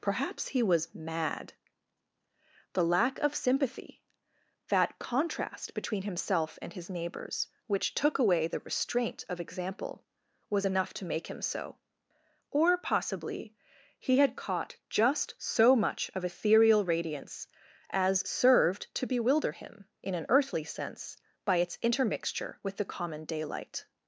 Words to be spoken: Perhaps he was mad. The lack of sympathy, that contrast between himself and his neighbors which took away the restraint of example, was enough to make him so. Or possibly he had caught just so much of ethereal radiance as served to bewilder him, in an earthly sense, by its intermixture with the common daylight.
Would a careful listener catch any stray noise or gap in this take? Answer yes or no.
no